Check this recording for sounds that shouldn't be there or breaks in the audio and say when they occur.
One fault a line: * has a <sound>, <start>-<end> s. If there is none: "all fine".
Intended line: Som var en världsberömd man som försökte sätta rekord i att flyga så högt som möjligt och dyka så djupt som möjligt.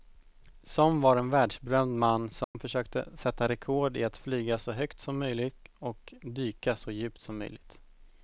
* has a dropout, 2.4-2.5 s